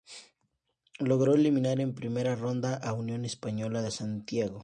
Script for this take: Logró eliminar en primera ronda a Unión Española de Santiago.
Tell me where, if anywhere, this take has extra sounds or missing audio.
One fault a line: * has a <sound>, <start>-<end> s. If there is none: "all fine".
all fine